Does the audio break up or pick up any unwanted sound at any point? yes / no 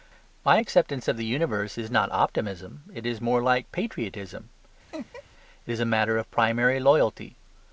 yes